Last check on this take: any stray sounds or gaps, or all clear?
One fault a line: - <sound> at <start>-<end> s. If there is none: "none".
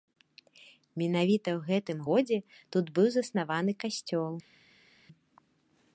none